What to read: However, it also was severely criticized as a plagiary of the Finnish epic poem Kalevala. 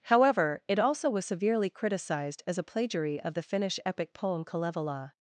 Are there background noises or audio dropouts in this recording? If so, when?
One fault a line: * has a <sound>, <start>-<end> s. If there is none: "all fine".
all fine